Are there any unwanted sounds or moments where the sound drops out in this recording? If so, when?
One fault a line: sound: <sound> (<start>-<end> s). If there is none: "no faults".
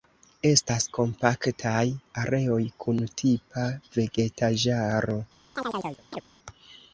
sound: chirp (5.6-6.2 s)